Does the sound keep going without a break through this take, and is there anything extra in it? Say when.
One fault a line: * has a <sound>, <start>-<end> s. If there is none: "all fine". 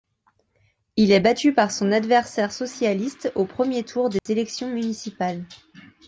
* has a dropout, 4.2-4.3 s